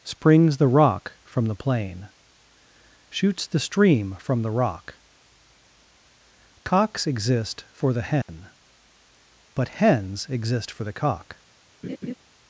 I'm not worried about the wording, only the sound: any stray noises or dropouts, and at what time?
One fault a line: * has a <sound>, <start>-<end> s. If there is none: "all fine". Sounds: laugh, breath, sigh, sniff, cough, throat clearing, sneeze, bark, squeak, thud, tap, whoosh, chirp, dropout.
* has a dropout, 8.2-8.3 s
* has a laugh, 11.8-12.1 s